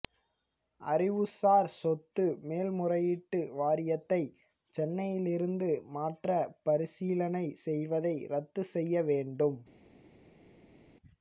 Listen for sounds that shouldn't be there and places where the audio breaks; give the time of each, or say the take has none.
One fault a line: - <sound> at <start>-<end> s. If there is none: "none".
none